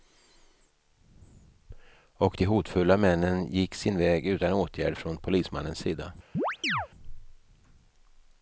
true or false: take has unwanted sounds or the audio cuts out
true